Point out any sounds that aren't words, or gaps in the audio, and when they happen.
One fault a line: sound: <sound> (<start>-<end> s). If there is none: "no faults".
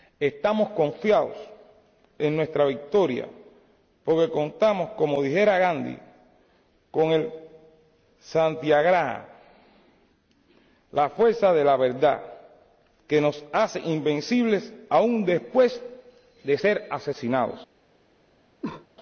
sound: cough (18.6-18.9 s)